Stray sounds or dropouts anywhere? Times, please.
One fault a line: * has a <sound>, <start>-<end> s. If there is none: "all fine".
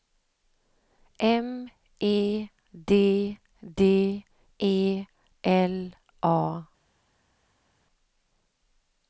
all fine